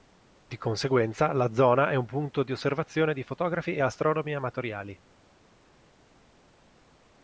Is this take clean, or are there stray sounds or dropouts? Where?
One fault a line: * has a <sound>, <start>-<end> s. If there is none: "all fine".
all fine